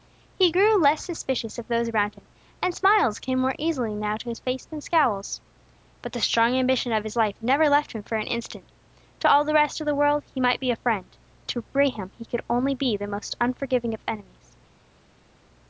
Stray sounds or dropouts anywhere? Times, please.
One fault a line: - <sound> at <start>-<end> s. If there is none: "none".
none